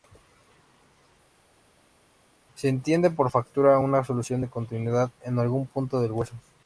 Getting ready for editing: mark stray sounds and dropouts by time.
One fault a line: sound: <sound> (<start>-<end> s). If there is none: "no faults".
no faults